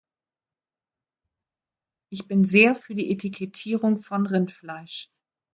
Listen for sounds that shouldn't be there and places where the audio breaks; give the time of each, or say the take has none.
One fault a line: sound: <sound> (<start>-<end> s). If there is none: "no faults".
no faults